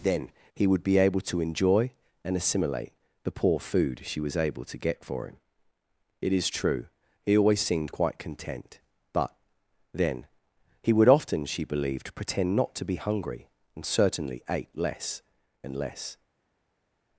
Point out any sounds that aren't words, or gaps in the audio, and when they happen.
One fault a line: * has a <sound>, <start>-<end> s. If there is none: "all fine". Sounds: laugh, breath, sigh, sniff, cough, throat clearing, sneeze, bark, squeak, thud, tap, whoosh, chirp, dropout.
all fine